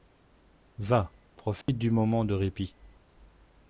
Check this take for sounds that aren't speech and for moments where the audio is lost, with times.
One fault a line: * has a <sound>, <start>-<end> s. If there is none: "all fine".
* has a dropout, 1.6-1.7 s